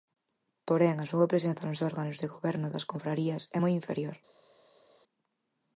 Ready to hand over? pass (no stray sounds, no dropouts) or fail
pass